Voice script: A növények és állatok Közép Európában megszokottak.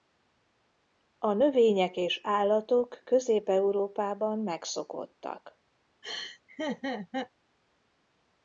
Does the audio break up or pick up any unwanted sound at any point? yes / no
yes